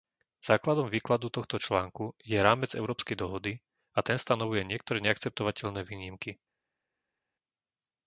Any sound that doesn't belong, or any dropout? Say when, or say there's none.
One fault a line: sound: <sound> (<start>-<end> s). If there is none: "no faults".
no faults